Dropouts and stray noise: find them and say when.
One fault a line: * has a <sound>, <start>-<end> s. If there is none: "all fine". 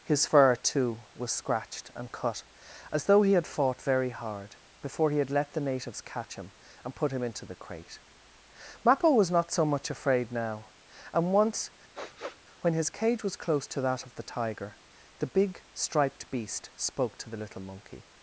* has a sniff, 11.9-12.4 s